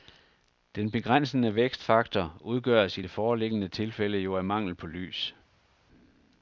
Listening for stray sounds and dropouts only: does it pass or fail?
pass